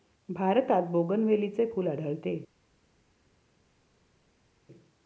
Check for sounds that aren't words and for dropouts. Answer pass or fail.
pass